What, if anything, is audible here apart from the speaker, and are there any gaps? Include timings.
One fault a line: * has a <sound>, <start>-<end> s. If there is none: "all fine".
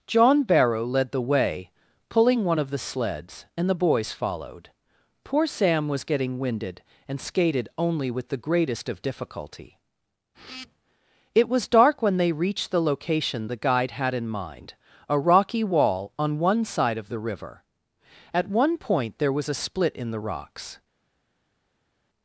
all fine